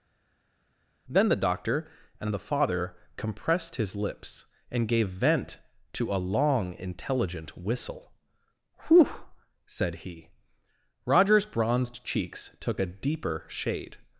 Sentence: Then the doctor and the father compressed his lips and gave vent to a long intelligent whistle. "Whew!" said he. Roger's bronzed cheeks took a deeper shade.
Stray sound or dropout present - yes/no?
no